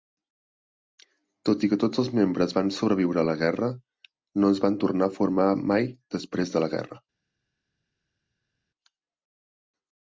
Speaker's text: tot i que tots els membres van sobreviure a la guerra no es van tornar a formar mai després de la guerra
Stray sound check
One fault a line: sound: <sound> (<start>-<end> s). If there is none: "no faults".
no faults